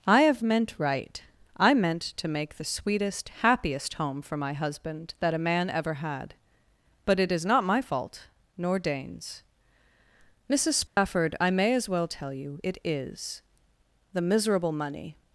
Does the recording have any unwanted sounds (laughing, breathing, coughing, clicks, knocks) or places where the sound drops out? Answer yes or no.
yes